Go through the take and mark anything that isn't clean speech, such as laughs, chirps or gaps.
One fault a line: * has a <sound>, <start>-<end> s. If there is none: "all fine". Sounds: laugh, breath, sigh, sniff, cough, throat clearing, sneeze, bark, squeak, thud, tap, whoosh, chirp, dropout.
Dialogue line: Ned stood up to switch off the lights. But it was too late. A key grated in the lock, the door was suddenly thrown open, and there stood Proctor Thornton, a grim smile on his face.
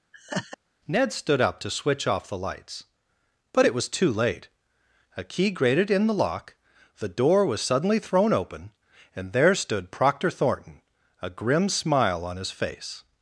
* has a laugh, 0.1-0.6 s